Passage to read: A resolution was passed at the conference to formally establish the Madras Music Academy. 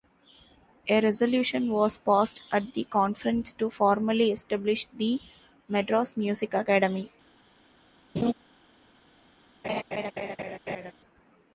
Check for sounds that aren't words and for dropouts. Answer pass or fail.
fail